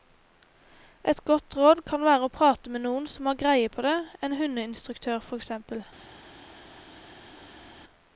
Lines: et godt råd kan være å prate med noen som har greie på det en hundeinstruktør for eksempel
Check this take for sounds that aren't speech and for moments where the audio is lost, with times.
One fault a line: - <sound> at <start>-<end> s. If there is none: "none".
none